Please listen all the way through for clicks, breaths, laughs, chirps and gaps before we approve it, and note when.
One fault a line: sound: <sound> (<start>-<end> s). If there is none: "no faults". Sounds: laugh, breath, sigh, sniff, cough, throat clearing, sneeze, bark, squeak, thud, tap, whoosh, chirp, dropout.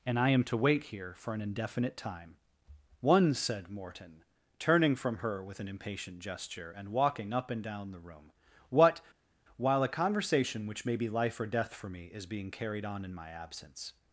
no faults